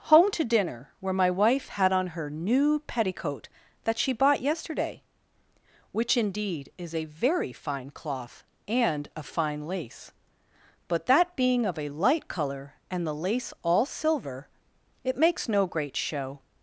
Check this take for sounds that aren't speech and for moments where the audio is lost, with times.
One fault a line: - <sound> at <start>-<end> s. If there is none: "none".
none